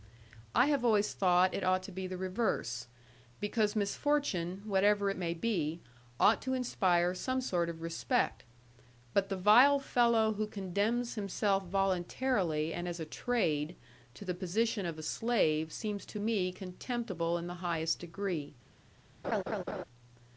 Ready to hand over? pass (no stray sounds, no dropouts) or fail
fail